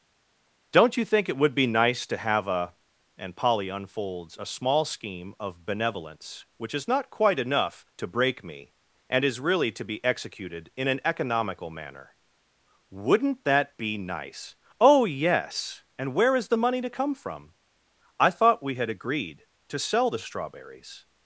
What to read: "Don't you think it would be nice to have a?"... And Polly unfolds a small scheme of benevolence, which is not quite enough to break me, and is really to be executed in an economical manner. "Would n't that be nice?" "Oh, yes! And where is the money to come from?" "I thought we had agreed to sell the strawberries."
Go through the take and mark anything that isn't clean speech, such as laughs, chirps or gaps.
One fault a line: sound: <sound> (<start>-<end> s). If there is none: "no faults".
no faults